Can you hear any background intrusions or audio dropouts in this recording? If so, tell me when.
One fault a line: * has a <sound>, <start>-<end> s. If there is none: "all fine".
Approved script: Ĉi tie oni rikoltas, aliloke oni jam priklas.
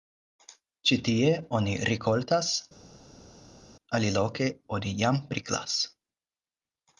all fine